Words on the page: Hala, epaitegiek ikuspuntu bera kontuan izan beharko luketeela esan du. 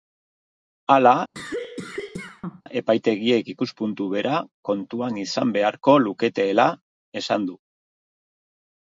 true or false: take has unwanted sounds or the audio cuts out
true